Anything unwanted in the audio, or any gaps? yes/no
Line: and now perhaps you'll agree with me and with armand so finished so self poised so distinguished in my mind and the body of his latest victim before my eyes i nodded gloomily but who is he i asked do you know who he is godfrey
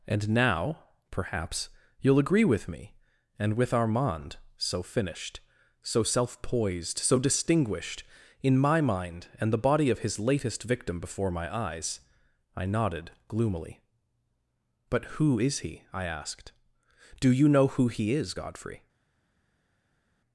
no